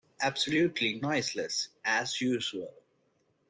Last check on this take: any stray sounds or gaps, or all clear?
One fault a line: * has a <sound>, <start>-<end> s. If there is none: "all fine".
all fine